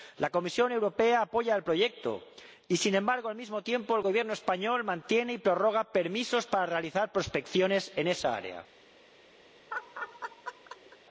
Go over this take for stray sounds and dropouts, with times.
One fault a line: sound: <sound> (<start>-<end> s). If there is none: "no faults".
sound: laugh (9.7-11.0 s)